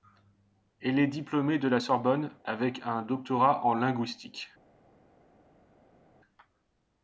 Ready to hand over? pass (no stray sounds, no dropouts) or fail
pass